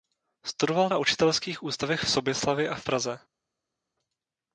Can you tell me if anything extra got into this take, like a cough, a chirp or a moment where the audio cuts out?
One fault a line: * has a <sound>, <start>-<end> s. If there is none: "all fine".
all fine